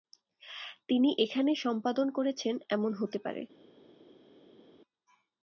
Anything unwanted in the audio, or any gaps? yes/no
no